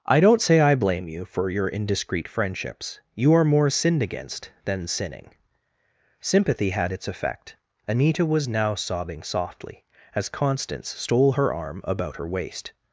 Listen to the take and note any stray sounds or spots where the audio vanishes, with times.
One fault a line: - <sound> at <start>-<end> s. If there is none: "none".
none